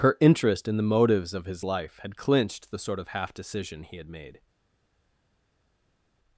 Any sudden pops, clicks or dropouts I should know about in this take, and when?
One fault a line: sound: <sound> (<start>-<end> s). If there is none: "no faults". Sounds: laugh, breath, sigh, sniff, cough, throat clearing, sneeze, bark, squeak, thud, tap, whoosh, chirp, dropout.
no faults